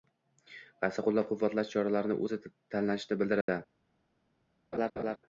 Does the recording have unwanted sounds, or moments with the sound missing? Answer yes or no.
yes